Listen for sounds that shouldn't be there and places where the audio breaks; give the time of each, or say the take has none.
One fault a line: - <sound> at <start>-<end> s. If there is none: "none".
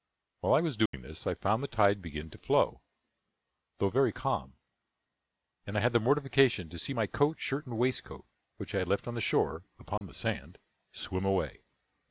- dropout at 0.9-0.9 s
- dropout at 10.0-10.0 s